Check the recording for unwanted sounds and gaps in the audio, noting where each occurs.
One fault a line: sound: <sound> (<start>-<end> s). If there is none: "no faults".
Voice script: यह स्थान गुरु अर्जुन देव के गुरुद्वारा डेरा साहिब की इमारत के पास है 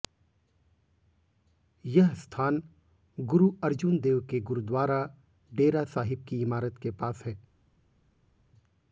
no faults